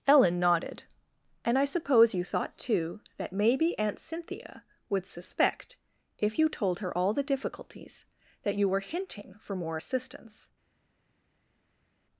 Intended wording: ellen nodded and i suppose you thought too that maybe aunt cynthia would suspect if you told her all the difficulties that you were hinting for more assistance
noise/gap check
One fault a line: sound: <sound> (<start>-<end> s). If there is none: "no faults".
no faults